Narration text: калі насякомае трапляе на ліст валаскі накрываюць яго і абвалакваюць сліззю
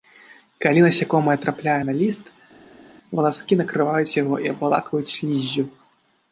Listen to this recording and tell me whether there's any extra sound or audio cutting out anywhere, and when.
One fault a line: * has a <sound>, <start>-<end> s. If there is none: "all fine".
all fine